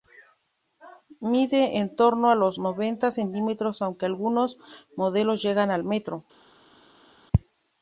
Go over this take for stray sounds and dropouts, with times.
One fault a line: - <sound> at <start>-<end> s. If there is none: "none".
none